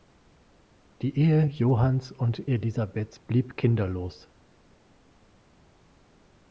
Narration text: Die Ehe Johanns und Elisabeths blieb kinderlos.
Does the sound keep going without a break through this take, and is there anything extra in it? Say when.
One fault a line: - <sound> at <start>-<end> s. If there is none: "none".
none